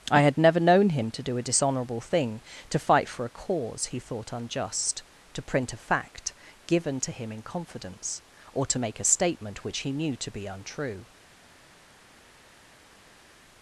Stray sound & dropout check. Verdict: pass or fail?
pass